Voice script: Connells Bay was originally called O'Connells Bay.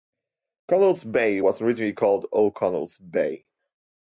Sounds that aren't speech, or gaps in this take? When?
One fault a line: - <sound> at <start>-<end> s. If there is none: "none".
none